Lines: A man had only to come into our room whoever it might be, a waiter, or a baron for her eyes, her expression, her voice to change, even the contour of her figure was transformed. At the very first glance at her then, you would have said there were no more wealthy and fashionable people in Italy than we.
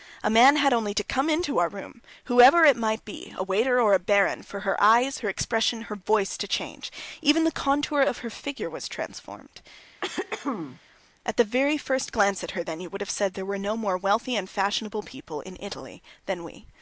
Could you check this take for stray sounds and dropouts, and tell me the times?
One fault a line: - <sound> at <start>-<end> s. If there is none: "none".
- throat clearing at 10.0-10.8 s